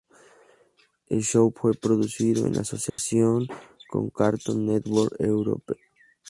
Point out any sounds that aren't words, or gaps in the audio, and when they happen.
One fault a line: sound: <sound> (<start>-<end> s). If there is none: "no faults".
sound: dropout (2.9-3.0 s)